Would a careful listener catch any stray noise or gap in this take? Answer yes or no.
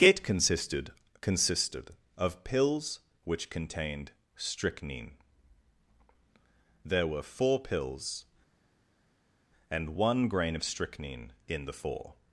no